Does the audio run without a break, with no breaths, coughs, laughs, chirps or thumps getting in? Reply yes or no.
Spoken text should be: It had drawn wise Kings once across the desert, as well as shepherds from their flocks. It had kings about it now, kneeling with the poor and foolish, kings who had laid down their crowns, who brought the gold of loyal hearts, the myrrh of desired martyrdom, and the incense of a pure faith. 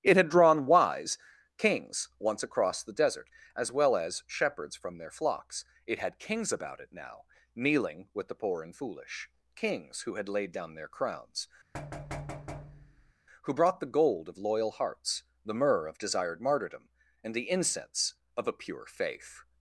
no